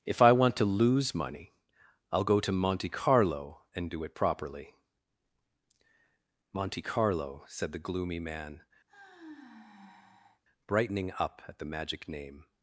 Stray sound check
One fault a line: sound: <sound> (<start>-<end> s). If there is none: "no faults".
sound: sigh (8.9-10.4 s)